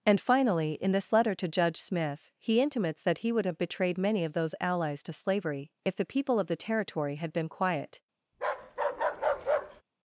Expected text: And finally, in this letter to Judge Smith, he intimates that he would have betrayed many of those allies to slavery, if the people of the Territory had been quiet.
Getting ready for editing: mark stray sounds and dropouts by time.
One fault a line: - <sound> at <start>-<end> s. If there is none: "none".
- bark at 8.3-9.8 s